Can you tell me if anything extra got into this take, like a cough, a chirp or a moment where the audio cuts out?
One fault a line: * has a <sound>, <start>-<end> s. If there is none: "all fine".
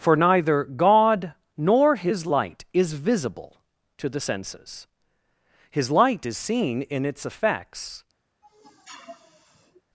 * has a sniff, 8.4-9.8 s